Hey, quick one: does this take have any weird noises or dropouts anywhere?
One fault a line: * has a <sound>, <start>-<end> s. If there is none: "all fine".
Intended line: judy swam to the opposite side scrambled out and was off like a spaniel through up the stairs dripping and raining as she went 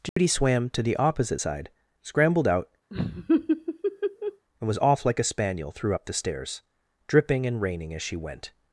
* has a dropout, 0.1-0.2 s
* has a laugh, 2.9-4.5 s